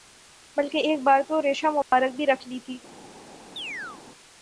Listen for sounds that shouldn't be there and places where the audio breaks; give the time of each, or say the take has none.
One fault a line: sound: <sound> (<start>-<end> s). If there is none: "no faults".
sound: dropout (1.8-1.9 s)
sound: chirp (3.6-4.0 s)